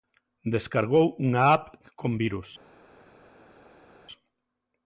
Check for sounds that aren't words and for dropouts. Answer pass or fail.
pass